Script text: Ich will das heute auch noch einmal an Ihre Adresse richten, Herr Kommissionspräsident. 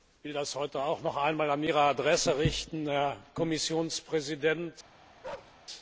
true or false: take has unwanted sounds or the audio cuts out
true